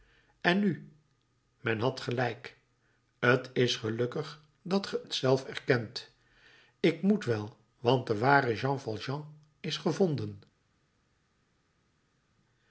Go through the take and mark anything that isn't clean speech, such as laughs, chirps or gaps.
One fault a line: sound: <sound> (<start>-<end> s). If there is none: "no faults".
no faults